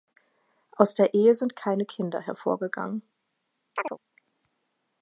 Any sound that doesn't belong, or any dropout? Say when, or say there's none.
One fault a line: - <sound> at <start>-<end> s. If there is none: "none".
- chirp at 3.8-4.0 s